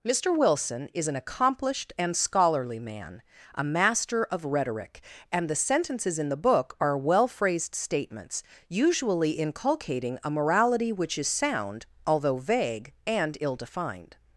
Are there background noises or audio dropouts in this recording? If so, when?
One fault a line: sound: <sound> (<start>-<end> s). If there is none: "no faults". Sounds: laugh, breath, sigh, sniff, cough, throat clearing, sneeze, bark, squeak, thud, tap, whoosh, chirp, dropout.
no faults